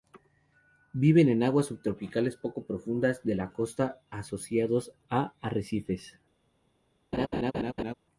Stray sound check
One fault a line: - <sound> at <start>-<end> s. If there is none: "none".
- laugh at 7.1-7.9 s